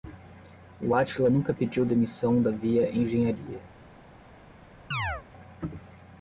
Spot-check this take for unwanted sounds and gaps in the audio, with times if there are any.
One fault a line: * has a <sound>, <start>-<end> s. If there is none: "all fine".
* has a chirp, 4.9-5.2 s